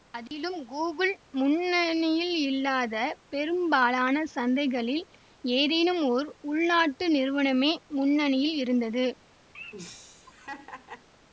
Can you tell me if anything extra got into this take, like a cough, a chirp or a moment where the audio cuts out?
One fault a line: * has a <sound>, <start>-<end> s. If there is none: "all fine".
* has a dropout, 0.3-0.3 s
* has a laugh, 9.5-11.1 s